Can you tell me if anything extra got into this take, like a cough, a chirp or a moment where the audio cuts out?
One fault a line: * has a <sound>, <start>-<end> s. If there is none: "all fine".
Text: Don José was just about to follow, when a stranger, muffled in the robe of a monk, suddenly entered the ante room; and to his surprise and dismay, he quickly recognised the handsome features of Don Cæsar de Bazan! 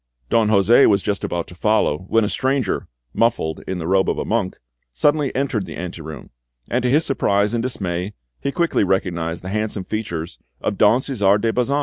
all fine